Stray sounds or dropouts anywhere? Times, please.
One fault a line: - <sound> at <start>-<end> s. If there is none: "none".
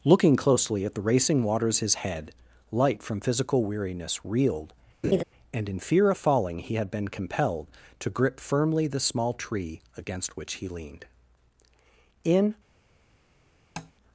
- laugh at 5.0-5.2 s
- tap at 13.8-13.9 s